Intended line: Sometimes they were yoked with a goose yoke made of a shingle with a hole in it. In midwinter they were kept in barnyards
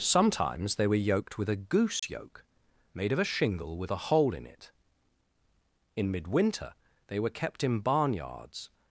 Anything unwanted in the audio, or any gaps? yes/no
yes